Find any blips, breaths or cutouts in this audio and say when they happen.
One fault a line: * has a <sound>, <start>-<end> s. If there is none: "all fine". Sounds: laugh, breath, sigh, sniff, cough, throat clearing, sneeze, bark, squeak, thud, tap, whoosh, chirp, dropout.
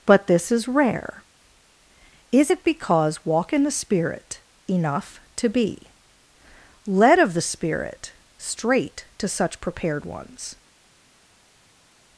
all fine